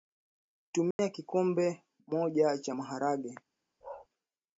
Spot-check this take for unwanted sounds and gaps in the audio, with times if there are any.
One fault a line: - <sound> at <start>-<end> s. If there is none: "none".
- dropout at 0.9-1.0 s
- bark at 3.8-4.1 s